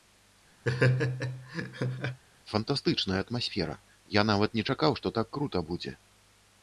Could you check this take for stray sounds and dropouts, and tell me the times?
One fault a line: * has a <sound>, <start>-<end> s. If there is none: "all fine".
* has a laugh, 0.6-2.2 s